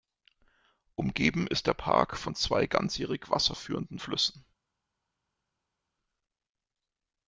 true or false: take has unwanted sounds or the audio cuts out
false